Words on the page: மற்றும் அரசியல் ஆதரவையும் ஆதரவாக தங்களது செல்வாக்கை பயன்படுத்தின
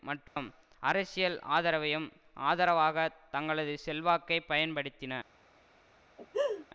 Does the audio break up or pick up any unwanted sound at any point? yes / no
yes